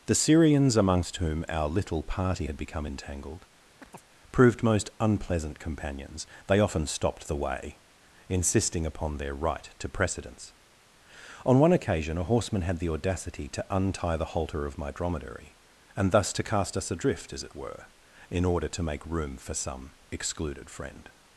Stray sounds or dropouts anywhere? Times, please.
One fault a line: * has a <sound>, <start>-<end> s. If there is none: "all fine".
* has a chirp, 3.8-4.0 s